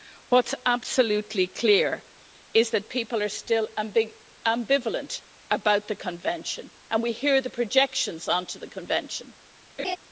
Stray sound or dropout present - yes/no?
yes